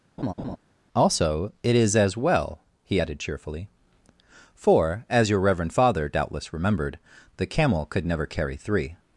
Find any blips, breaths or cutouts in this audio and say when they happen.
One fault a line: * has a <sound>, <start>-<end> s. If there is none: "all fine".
* has a laugh, 0.2-0.6 s